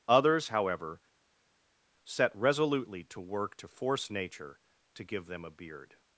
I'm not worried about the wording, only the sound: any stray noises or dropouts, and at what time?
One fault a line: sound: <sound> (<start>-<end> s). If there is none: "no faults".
no faults